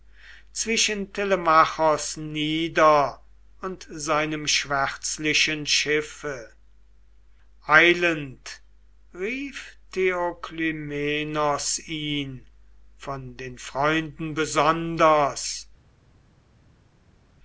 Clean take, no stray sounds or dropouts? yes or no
yes